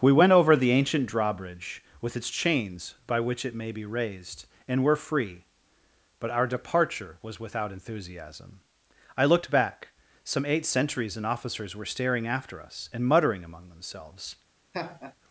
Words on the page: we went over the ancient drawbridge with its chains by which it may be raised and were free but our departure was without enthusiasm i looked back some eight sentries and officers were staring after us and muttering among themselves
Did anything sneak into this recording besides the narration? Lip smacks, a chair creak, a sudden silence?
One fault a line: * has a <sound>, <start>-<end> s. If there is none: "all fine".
* has a laugh, 14.7-15.2 s